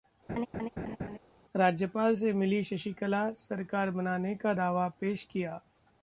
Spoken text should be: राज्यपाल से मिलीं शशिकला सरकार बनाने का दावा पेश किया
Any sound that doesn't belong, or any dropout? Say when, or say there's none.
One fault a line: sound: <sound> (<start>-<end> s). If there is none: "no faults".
sound: laugh (0.3-1.2 s)